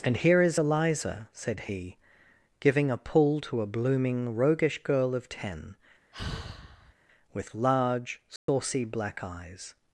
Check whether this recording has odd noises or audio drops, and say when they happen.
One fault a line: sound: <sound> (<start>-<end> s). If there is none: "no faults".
sound: sigh (6.1-6.9 s)
sound: dropout (8.4-8.5 s)